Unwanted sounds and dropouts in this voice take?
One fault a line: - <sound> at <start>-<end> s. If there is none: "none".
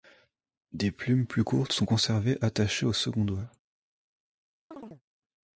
- chirp at 4.7-5.0 s